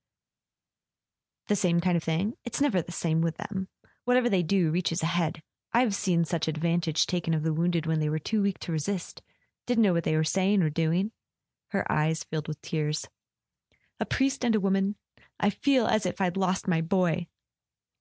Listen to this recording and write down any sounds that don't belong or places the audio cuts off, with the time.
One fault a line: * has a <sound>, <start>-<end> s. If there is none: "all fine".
all fine